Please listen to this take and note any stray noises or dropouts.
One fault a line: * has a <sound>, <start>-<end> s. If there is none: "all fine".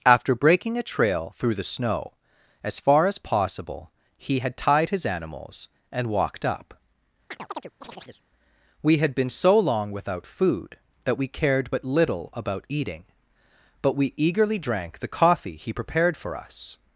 * has a chirp, 7.3-8.2 s